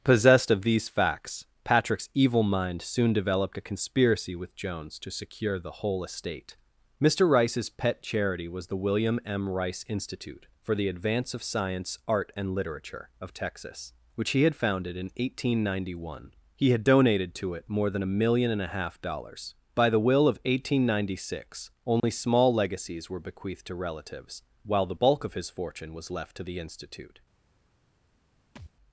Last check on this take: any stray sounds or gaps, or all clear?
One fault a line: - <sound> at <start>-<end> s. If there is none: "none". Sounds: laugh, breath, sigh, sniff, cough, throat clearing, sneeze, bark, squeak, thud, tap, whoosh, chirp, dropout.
- dropout at 22.0-22.0 s
- thud at 28.6-28.7 s